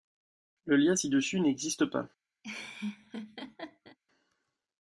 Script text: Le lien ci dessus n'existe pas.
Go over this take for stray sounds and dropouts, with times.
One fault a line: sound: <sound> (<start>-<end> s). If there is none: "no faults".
sound: laugh (2.4-4.0 s)